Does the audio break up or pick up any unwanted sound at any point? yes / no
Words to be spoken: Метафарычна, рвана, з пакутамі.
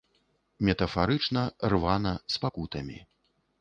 no